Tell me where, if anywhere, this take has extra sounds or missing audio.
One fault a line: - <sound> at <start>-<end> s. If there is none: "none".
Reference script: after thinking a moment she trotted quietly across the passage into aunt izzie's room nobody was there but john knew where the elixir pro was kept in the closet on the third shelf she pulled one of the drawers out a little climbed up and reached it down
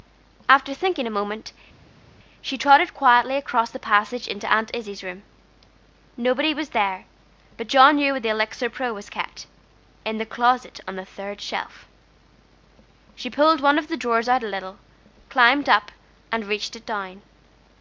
none